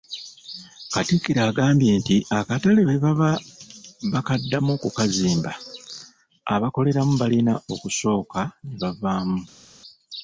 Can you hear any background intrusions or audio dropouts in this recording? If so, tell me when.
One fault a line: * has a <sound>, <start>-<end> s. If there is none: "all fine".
all fine